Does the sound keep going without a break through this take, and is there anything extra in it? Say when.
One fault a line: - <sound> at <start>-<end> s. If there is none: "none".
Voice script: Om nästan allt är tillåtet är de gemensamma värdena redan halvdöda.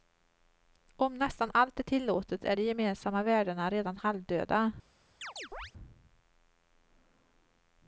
- chirp at 5.2-5.7 s